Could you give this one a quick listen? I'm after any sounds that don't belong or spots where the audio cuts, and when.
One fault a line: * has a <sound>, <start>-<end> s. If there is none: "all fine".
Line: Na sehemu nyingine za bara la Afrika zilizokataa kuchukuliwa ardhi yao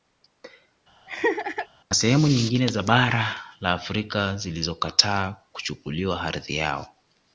* has a laugh, 1.1-1.7 s